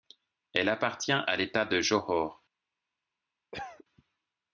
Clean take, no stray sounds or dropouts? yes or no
no